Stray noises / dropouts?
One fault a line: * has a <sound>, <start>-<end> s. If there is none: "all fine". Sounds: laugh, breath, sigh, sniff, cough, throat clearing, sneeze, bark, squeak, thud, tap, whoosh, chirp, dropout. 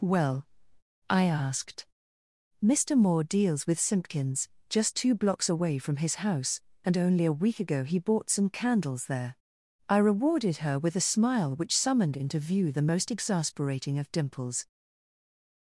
all fine